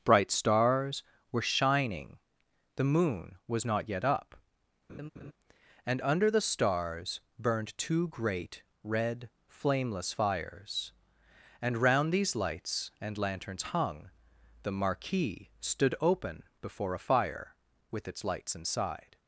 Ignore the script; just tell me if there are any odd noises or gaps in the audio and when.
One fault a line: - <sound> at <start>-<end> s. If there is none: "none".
- laugh at 4.9-5.3 s